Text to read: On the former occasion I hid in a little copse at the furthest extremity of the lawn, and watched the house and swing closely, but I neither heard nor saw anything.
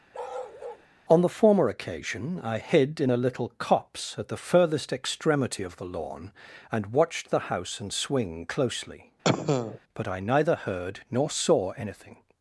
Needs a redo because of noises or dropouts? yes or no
yes